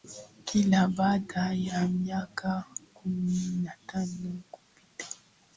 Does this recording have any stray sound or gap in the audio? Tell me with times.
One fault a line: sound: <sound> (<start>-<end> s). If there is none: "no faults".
no faults